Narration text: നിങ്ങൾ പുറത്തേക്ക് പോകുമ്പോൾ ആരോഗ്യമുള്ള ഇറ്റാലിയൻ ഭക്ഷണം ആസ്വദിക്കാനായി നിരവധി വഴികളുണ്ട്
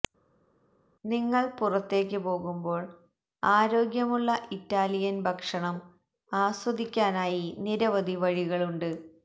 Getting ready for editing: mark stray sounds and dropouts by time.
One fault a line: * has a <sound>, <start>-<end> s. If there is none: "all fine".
all fine